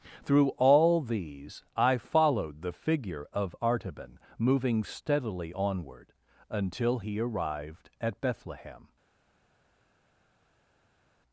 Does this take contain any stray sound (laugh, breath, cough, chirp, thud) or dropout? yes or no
no